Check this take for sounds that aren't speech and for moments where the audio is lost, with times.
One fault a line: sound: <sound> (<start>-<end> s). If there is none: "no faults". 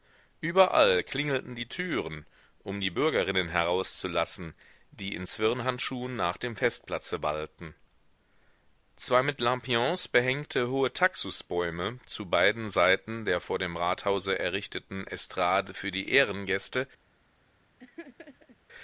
sound: laugh (17.8-18.6 s)